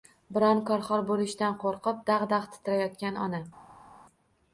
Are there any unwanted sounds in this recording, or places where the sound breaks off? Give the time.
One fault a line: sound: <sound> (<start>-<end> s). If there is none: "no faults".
no faults